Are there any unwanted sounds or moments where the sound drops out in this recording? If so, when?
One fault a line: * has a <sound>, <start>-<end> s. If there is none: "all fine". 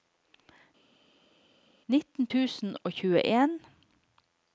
all fine